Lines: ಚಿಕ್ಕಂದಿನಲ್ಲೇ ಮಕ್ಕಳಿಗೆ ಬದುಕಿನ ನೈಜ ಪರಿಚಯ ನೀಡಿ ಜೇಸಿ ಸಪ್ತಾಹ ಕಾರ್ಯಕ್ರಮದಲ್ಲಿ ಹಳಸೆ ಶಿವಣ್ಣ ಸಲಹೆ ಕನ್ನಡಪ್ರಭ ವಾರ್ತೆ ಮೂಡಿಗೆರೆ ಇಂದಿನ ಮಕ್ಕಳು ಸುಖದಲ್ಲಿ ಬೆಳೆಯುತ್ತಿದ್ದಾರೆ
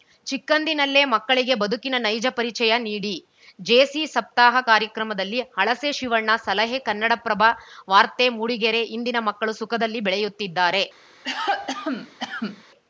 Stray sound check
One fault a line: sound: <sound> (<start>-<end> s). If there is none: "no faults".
sound: cough (11.2-12.6 s)